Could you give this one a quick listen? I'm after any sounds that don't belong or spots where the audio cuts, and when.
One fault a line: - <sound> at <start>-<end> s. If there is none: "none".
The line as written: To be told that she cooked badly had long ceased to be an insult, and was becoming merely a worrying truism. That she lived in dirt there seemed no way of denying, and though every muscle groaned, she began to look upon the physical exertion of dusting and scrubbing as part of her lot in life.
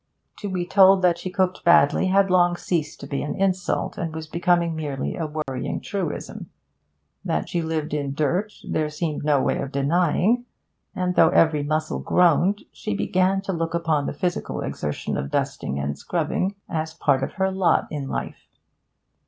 - dropout at 5.4-5.5 s